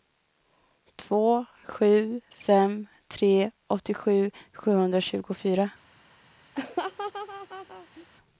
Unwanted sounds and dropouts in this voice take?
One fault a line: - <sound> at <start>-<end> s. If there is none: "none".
- laugh at 6.5-8.1 s